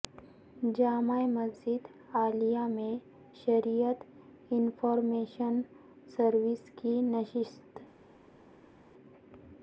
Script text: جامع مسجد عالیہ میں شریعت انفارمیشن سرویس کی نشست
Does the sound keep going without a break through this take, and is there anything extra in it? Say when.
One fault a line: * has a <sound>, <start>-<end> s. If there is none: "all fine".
all fine